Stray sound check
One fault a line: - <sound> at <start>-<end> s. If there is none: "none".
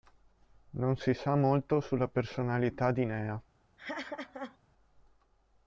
- laugh at 3.8-4.6 s